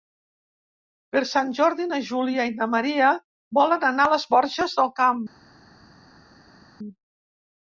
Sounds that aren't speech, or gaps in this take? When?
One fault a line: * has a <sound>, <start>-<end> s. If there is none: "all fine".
all fine